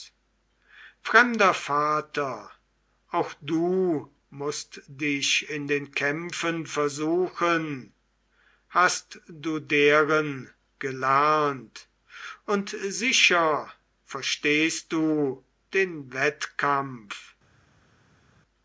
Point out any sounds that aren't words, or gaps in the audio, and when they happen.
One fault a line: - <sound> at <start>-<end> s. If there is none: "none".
none